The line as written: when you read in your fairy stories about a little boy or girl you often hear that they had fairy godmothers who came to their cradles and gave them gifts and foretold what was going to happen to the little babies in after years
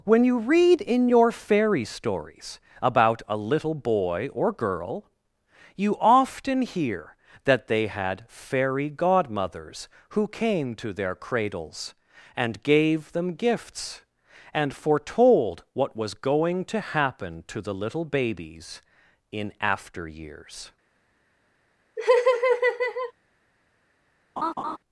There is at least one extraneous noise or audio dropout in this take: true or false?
true